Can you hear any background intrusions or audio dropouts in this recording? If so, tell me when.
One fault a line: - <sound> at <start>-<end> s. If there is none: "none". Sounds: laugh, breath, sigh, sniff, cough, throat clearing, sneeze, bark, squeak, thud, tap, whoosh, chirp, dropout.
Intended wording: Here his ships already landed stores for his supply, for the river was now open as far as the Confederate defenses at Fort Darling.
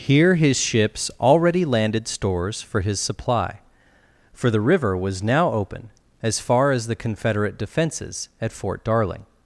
none